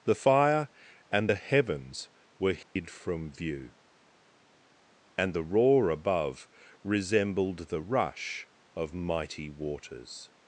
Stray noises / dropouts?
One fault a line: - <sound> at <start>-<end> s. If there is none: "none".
- dropout at 2.6-2.8 s